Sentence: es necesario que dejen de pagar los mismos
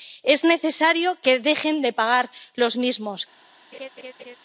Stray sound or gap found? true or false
true